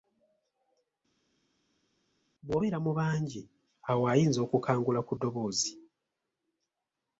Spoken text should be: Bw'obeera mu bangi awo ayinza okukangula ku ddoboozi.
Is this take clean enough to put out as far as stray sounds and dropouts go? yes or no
yes